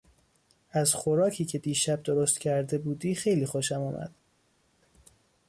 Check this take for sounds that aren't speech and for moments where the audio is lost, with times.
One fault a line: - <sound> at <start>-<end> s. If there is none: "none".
none